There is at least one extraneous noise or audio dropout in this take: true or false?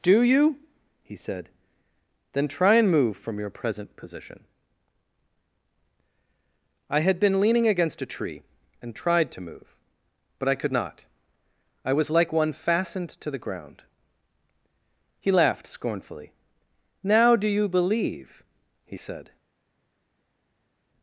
false